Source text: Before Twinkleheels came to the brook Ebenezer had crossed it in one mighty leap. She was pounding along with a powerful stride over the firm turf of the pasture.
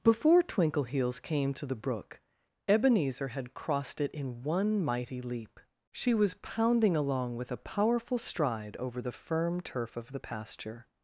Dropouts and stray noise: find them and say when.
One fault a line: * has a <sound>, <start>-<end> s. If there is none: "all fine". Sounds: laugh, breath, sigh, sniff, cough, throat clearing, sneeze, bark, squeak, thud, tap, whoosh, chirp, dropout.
all fine